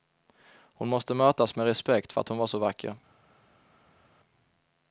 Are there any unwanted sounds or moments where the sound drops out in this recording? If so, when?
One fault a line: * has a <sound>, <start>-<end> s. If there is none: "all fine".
all fine